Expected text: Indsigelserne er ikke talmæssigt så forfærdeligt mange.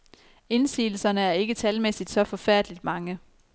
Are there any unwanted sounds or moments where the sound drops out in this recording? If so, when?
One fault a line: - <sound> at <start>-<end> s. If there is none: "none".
none